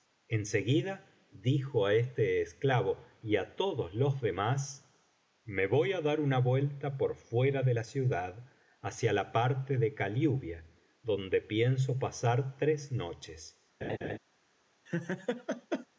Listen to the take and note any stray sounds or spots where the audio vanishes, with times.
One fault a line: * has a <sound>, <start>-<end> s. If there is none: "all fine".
* has a laugh, 13.8-14.2 s
* has a laugh, 14.9-15.9 s